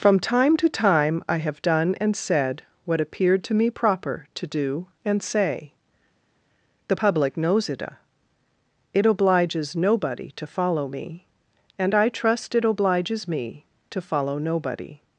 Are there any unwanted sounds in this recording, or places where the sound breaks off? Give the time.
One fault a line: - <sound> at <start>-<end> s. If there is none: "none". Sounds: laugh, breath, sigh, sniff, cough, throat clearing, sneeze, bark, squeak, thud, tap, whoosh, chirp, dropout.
none